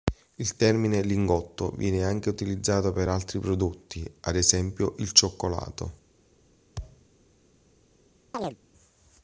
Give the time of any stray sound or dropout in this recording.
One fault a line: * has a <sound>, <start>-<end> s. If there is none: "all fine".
* has a thud, 6.8-7.1 s
* has a chirp, 8.3-8.6 s